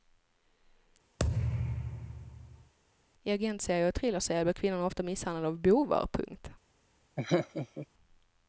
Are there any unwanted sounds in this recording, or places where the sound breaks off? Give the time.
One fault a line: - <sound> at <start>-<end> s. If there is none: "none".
- thud at 1.2-2.7 s
- laugh at 7.2-7.9 s